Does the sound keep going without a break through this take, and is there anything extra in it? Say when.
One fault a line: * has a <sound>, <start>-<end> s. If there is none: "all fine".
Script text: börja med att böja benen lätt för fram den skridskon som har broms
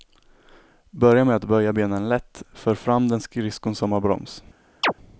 * has a chirp, 4.8-4.9 s